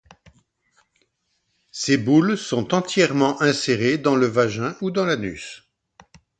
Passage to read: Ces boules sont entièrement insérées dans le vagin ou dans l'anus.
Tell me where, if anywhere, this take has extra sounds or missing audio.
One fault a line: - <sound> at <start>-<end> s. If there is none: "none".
none